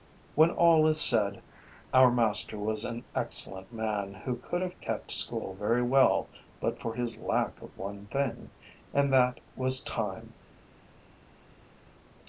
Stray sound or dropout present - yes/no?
no